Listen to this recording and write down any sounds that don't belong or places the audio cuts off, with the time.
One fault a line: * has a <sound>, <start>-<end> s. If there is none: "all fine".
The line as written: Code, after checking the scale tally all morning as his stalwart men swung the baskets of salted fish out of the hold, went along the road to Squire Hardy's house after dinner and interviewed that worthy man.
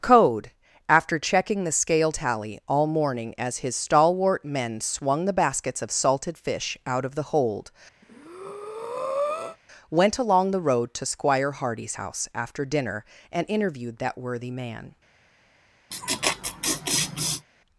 * has a breath, 8.0-9.6 s
* has a laugh, 15.9-17.5 s